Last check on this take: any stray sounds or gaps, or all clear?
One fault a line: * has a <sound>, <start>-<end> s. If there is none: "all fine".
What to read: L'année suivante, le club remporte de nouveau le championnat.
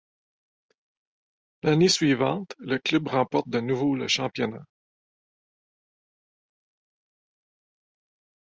all fine